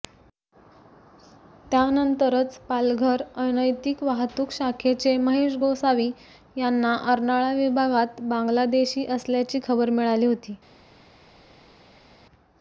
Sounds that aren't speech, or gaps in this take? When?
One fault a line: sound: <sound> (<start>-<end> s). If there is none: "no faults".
no faults